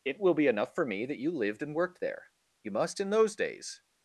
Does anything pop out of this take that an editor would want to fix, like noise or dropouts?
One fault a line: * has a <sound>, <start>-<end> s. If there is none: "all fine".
all fine